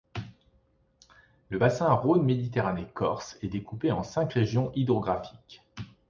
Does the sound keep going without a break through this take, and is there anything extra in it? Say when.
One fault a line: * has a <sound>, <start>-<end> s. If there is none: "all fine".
all fine